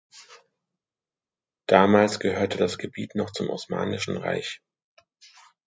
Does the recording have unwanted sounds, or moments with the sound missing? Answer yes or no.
no